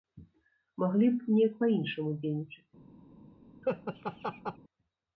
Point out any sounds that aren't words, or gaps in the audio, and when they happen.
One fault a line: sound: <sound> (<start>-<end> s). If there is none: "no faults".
sound: laugh (3.6-4.6 s)